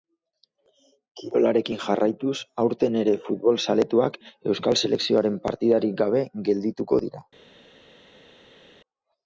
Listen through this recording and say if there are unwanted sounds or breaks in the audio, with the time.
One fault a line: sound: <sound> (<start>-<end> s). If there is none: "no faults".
no faults